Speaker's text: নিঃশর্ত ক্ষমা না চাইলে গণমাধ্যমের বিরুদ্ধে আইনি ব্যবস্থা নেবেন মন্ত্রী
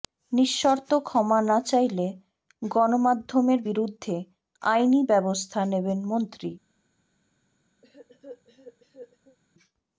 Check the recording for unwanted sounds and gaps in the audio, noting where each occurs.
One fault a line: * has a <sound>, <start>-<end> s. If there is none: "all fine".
* has a cough, 7.8-9.4 s